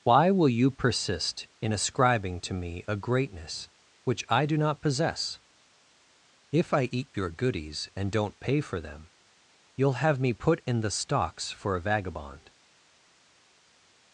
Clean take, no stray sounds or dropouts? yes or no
yes